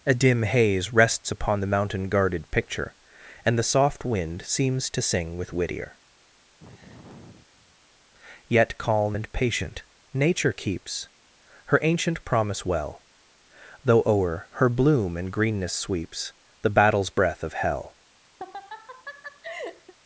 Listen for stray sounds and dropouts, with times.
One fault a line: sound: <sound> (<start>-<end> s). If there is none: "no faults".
sound: sigh (6.6-7.8 s)
sound: laugh (18.4-19.9 s)